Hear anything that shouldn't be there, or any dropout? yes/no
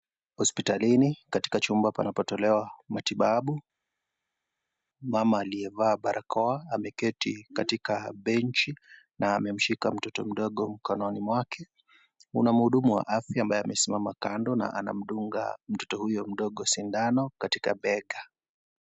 no